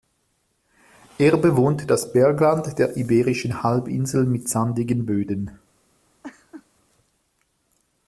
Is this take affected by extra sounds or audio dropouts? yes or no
yes